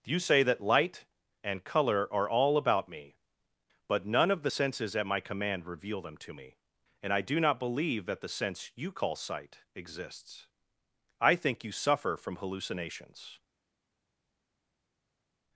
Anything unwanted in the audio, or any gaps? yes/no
no